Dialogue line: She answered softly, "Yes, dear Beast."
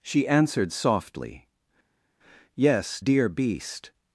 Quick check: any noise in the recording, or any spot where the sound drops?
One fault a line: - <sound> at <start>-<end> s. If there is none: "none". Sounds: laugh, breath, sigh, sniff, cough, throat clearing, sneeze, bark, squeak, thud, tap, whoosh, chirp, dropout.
none